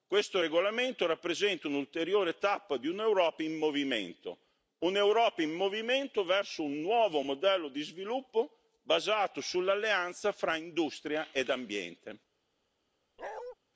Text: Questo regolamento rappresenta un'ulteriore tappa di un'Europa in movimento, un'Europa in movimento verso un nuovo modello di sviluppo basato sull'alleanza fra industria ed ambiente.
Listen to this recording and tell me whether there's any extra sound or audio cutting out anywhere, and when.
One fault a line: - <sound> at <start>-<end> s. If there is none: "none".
- bark at 13.2-13.6 s